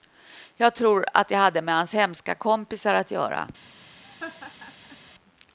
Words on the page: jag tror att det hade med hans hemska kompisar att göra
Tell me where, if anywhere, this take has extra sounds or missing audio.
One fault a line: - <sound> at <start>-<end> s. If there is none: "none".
- laugh at 4.0-5.0 s